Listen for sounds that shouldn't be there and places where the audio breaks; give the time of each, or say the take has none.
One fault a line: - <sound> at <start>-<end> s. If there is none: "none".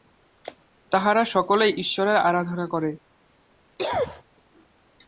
- cough at 3.8-4.2 s